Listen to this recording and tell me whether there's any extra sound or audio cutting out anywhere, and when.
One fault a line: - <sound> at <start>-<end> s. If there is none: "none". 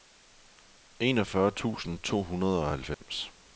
- dropout at 2.9-3.0 s